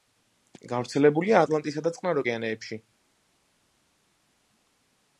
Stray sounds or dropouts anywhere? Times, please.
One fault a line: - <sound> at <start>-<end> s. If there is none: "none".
none